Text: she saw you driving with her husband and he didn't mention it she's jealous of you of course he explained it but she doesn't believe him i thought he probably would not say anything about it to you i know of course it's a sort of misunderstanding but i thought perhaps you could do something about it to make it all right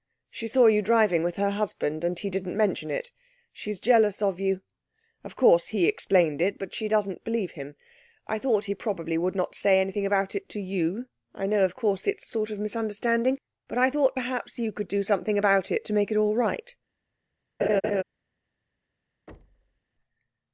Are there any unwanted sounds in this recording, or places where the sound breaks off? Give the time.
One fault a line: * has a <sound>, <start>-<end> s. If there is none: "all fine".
* has a laugh, 17.6-18.0 s
* has a thud, 19.3-19.8 s